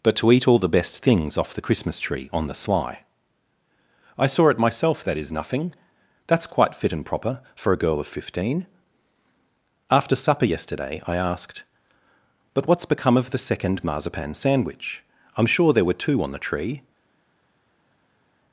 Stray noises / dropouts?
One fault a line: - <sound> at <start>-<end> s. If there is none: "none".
none